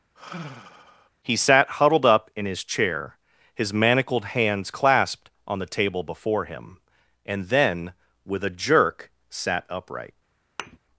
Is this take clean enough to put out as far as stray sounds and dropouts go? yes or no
no